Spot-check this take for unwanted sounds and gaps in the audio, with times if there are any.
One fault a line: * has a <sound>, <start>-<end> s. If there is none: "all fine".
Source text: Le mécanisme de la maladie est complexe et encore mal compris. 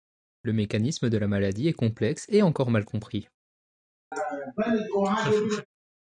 * has a laugh, 4.1-5.7 s